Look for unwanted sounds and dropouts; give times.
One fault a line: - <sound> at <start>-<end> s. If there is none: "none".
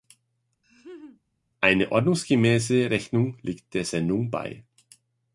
- laugh at 0.6-1.2 s